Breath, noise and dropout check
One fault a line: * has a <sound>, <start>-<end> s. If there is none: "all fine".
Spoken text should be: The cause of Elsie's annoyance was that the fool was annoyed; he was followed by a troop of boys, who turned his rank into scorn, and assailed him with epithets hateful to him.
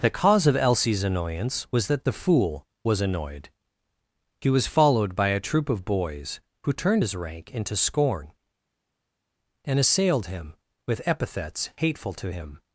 all fine